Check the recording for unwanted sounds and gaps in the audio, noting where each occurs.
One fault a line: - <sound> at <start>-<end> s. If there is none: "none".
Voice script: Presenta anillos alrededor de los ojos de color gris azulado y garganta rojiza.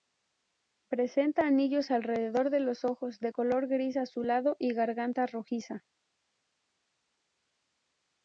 none